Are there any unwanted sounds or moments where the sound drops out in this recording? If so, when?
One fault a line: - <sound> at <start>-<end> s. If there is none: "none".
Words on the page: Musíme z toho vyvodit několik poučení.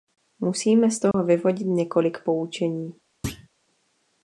- dropout at 1.1-1.1 s
- thud at 3.2-3.5 s